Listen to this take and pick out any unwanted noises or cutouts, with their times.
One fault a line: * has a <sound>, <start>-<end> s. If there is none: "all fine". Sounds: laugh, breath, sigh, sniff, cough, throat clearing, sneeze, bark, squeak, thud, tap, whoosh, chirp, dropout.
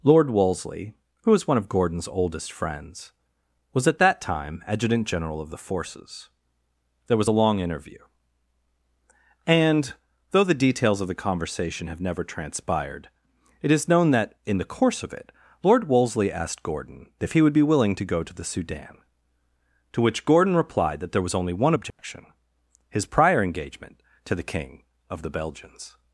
* has a dropout, 21.9-22.0 s